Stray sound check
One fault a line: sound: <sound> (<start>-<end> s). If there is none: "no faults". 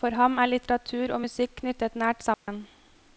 sound: dropout (2.3-2.5 s)